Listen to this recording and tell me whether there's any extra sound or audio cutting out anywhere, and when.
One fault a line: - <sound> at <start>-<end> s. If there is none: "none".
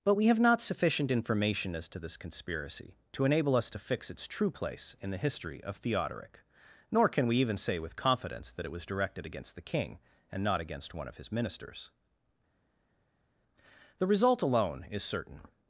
none